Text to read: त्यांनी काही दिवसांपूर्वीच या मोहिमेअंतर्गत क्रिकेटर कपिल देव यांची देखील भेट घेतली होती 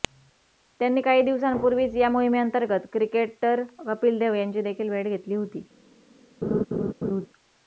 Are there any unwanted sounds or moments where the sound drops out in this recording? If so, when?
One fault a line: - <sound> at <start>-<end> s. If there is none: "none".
- laugh at 6.4-7.3 s